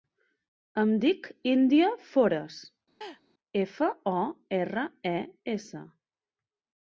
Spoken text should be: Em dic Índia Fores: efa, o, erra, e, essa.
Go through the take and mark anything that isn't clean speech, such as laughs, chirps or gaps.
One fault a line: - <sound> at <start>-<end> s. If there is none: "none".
- laugh at 3.0-3.2 s